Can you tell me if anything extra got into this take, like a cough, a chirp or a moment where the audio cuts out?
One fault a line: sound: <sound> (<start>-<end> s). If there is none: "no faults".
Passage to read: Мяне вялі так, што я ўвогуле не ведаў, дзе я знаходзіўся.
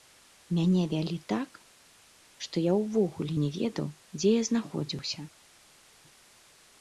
no faults